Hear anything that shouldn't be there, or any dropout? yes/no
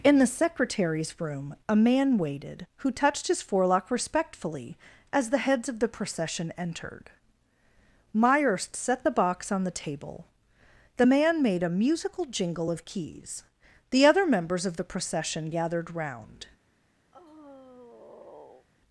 yes